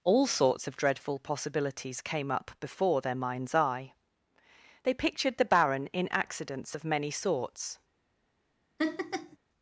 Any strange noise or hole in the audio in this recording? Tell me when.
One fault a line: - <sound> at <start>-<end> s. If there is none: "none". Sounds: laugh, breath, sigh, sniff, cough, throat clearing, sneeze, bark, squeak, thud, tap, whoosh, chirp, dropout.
- laugh at 8.8-9.4 s